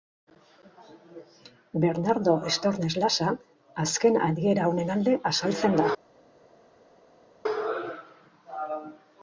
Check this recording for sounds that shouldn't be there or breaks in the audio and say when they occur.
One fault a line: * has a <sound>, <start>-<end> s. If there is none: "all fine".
all fine